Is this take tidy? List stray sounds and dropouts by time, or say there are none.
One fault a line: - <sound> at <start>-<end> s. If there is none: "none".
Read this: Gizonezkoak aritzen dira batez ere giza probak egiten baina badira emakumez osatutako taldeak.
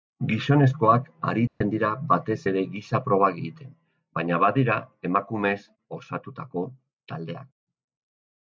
- dropout at 1.5-1.6 s